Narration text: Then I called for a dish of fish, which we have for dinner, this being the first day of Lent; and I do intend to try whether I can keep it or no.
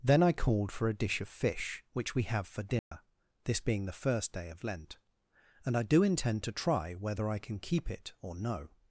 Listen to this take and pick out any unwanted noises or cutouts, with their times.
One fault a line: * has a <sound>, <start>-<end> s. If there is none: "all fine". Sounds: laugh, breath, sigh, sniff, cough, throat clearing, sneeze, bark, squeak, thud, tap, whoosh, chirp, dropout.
* has a dropout, 2.8-2.9 s